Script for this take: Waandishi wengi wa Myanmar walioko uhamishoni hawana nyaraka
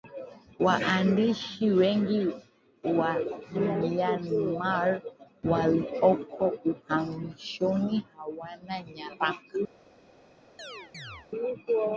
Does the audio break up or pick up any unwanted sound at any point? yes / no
yes